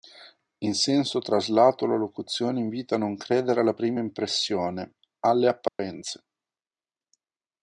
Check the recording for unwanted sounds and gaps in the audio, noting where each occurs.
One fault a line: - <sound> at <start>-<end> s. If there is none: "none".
- dropout at 5.7-5.8 s